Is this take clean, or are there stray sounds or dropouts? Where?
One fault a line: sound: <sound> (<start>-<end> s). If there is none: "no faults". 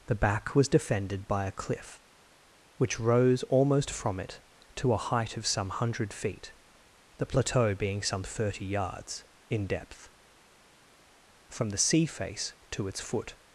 no faults